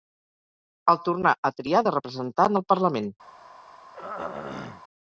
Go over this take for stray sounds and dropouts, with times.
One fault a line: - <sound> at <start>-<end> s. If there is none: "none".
- throat clearing at 3.9-4.8 s